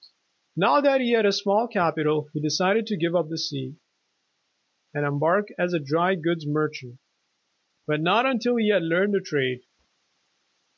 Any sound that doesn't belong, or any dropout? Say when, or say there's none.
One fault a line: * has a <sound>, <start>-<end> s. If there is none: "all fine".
all fine